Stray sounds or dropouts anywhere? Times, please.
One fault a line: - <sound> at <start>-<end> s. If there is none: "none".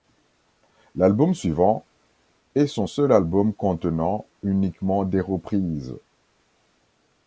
none